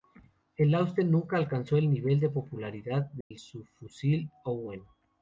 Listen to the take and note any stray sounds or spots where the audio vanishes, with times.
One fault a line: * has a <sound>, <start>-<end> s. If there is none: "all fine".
* has a dropout, 3.2-3.3 s